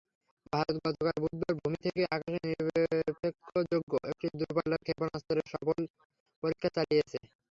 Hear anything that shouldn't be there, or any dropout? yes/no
no